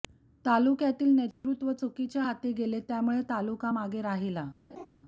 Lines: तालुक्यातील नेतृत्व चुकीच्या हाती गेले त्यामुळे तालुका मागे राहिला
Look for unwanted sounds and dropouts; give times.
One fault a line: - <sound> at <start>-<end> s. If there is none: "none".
- dropout at 1.3-1.4 s
- laugh at 4.7-4.9 s